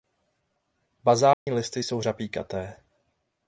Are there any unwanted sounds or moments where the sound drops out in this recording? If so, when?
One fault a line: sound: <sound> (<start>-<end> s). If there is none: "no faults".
sound: dropout (1.3-1.5 s)